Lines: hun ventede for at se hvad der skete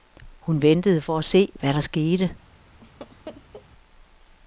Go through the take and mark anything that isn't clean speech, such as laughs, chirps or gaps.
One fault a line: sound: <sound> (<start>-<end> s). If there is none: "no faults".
sound: laugh (2.8-3.7 s)